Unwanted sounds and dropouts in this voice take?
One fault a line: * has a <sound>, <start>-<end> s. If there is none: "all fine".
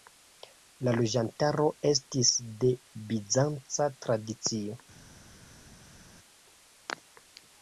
all fine